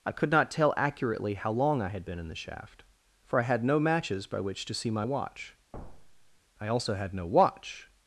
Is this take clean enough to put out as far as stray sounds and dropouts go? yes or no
no